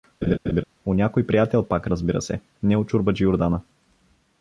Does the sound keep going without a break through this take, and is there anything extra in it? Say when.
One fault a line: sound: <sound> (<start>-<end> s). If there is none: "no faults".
sound: laugh (0.2-0.6 s)